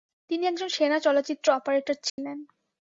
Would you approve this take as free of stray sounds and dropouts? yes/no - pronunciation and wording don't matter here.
no